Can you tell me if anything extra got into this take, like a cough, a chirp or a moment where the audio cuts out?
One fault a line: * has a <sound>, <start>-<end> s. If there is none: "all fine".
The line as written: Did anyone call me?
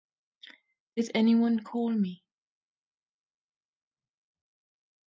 all fine